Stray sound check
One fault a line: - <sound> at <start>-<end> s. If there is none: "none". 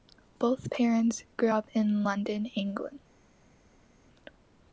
none